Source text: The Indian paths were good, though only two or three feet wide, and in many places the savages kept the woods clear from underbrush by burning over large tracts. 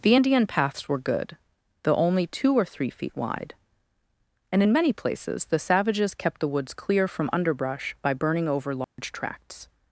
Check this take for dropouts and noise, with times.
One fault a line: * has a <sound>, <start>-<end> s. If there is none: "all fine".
* has a dropout, 8.8-9.0 s